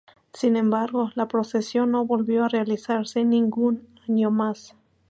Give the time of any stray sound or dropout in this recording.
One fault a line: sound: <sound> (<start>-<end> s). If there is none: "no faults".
no faults